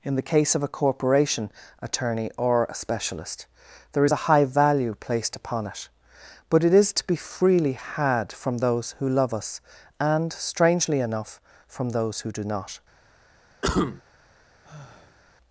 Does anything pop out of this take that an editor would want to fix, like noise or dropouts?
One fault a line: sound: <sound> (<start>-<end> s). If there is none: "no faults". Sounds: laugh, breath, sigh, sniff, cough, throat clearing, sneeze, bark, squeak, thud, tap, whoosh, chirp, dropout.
sound: cough (13.6-14.0 s)
sound: sigh (14.6-15.2 s)